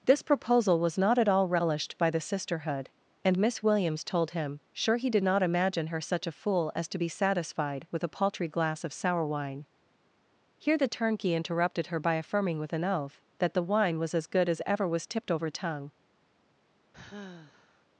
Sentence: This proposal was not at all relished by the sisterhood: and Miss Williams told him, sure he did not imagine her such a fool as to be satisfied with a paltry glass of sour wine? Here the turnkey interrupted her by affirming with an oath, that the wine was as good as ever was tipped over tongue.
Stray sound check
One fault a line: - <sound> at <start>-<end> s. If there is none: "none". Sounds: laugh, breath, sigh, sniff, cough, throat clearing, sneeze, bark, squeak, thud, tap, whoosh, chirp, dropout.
- sigh at 16.9-17.9 s